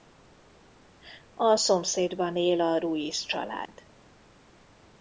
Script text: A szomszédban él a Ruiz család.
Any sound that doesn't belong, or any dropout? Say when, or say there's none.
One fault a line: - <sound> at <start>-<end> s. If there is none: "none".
- dropout at 3.7-3.7 s